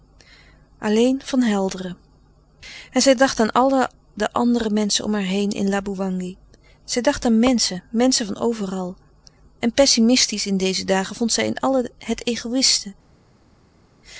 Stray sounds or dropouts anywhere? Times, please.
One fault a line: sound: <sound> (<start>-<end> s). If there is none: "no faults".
no faults